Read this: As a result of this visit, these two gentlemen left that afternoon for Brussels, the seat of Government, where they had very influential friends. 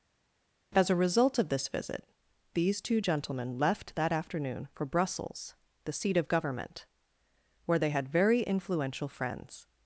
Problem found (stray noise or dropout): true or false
false